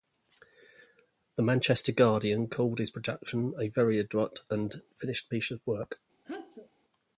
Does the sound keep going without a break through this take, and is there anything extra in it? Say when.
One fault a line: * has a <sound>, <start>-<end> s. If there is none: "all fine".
* has a sneeze, 6.2-6.7 s